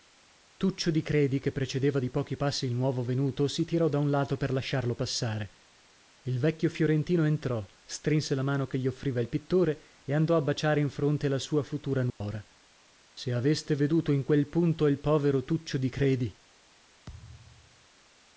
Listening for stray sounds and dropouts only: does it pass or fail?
fail